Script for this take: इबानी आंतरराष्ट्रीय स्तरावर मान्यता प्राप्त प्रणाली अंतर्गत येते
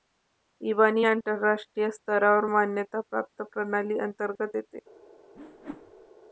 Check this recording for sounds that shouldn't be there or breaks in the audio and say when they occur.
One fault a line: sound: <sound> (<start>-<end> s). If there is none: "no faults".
sound: whoosh (5.3-6.1 s)